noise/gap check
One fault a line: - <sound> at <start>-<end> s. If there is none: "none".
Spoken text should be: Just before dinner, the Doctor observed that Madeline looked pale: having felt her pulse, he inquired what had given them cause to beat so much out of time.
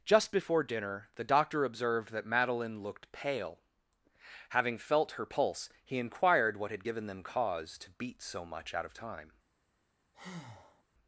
- breath at 10.1-10.8 s